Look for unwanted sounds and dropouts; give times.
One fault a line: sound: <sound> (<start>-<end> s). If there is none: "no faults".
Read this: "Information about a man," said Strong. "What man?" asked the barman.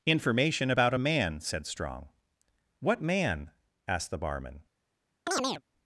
sound: chirp (5.3-5.6 s)